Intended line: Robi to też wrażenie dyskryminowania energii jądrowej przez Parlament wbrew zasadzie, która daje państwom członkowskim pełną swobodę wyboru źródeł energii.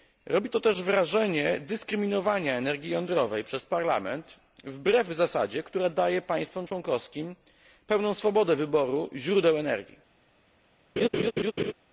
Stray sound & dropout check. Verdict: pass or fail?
fail